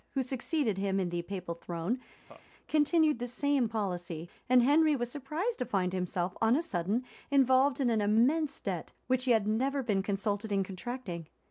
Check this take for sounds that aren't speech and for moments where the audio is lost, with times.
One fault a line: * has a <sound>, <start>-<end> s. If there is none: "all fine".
* has a laugh, 2.3-2.5 s